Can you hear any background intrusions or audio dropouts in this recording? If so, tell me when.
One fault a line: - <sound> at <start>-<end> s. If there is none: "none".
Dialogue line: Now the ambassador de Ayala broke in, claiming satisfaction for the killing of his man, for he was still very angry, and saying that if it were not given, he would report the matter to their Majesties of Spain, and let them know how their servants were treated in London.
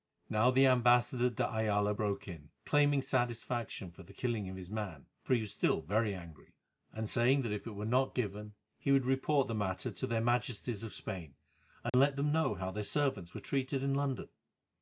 - dropout at 11.9-11.9 s